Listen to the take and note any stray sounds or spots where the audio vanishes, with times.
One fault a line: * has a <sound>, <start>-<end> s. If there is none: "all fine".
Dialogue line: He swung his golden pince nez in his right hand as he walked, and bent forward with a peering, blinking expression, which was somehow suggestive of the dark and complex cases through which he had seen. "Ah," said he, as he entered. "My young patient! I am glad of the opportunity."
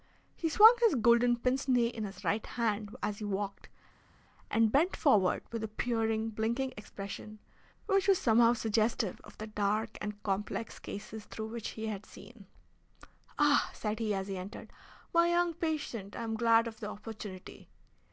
all fine